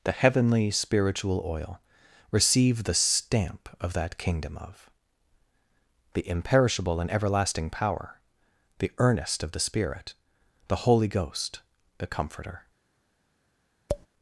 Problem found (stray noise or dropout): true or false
true